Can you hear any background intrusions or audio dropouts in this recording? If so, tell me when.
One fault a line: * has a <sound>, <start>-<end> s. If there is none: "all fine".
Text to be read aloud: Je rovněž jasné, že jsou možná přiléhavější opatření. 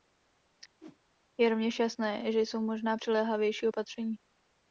* has a whoosh, 0.8-1.0 s